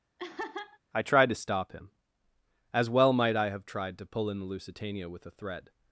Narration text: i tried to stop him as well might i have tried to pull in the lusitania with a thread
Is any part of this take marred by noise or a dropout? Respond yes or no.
yes